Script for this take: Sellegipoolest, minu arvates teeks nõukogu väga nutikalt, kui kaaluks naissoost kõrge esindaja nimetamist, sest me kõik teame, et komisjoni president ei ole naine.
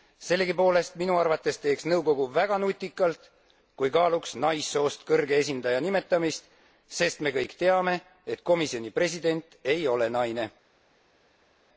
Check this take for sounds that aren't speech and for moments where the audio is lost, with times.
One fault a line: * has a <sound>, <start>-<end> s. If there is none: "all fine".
all fine